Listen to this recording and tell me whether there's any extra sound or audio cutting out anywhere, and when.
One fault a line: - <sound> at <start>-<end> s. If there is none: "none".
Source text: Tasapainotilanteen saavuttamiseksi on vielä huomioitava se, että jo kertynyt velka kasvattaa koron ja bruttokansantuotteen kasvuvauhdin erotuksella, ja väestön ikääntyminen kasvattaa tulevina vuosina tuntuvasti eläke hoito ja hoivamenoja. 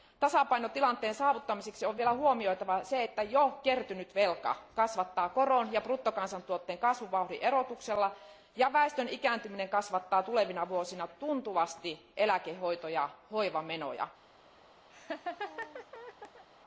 - laugh at 14.9-16.4 s